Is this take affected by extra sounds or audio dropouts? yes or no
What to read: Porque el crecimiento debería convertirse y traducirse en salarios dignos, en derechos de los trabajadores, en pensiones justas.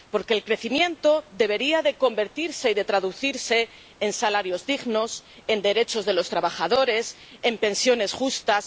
no